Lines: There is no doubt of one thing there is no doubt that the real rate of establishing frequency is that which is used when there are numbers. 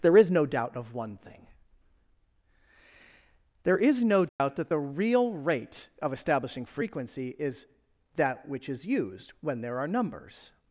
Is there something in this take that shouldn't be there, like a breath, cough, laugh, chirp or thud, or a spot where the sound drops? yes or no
yes